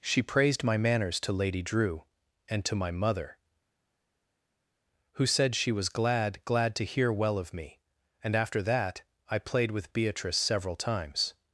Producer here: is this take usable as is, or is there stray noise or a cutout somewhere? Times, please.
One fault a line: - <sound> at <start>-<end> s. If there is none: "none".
none